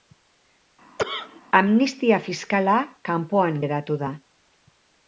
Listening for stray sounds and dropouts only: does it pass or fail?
fail